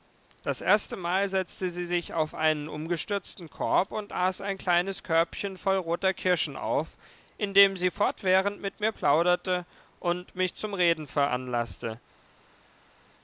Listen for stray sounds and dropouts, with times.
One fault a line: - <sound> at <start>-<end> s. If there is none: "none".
none